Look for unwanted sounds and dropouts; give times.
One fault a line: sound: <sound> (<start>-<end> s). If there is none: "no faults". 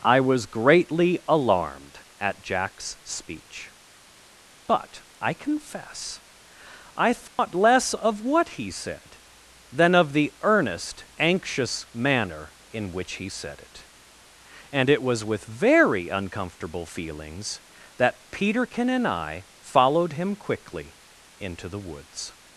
sound: dropout (7.3-7.4 s)